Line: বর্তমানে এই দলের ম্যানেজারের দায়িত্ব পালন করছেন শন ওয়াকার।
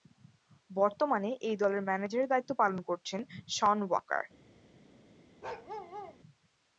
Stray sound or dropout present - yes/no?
yes